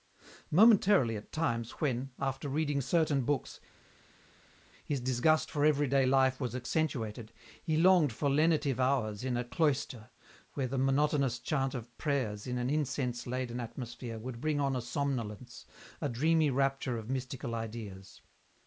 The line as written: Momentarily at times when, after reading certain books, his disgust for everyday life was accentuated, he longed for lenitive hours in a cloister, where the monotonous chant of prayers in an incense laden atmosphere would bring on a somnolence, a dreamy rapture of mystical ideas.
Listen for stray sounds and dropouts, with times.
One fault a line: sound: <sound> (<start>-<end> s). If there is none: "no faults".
no faults